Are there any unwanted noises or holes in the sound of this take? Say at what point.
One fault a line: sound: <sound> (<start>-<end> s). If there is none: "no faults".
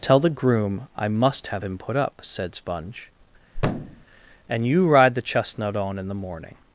sound: thud (3.5-4.1 s)